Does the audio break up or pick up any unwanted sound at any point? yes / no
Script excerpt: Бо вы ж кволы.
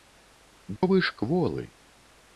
yes